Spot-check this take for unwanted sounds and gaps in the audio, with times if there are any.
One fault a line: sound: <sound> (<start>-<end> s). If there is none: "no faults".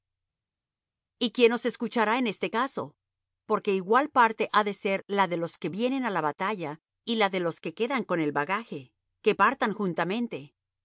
no faults